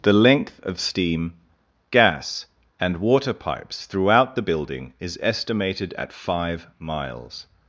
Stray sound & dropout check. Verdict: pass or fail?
pass